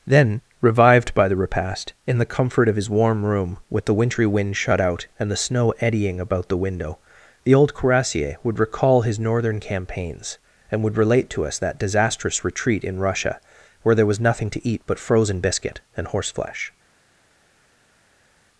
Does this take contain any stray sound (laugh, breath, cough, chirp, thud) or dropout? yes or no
no